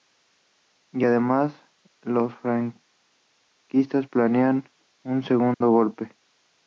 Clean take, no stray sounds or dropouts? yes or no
no